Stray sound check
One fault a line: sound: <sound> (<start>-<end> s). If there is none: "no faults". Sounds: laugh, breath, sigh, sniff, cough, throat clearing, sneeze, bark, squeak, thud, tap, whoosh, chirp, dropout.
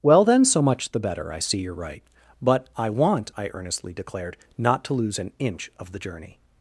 no faults